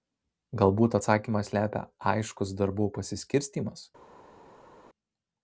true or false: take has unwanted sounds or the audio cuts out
false